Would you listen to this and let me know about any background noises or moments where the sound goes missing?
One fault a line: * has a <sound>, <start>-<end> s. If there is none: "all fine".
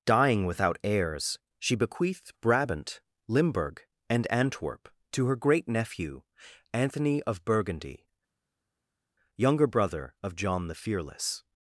all fine